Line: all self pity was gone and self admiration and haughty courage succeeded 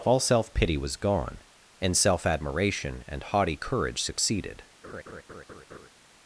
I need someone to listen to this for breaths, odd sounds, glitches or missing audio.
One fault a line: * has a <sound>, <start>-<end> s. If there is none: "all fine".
* has a laugh, 4.8-5.9 s